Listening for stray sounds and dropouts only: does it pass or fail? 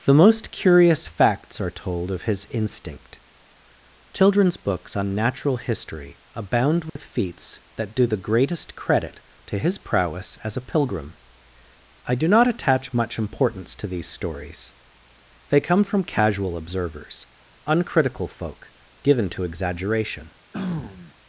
fail